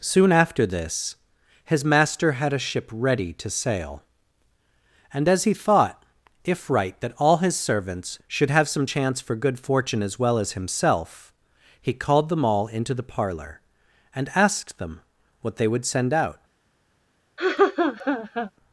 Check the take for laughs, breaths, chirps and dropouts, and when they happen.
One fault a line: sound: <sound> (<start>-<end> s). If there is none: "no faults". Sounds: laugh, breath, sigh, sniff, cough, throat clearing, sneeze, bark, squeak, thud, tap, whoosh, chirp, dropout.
sound: laugh (17.4-18.5 s)